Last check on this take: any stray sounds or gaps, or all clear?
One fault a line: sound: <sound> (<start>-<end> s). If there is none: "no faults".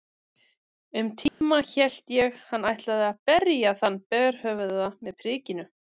sound: dropout (1.3-1.4 s)